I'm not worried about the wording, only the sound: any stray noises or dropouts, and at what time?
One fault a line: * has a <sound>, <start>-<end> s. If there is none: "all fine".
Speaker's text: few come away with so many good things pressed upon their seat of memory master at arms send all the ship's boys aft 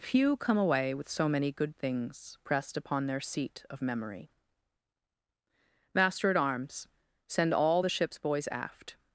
all fine